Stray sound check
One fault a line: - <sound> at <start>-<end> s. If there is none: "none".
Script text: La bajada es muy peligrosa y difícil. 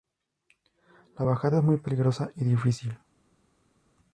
none